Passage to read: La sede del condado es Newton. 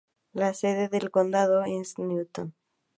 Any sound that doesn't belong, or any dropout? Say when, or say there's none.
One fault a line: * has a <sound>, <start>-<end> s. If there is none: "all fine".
all fine